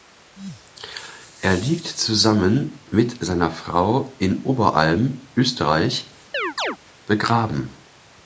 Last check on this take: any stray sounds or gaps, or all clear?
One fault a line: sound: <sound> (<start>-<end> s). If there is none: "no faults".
sound: chirp (6.3-6.8 s)